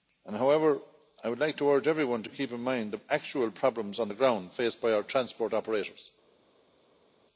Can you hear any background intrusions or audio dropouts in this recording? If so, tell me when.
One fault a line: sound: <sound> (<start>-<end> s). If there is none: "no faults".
no faults